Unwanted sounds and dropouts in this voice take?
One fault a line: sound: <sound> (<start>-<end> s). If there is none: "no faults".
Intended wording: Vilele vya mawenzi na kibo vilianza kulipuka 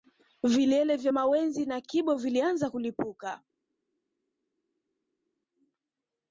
no faults